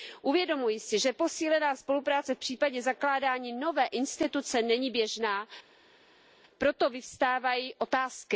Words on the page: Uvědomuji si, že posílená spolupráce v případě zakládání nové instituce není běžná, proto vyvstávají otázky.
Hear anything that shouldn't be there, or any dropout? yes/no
no